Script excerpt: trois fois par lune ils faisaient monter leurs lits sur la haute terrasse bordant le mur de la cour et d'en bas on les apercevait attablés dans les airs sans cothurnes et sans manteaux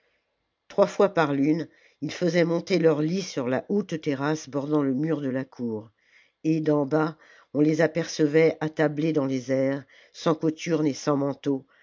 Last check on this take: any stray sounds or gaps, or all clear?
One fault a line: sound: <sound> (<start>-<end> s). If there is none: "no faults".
no faults